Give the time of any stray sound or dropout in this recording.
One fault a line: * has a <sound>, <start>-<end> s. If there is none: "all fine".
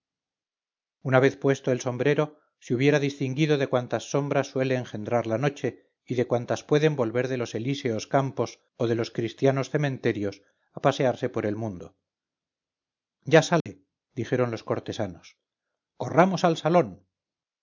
* has a dropout, 13.6-13.7 s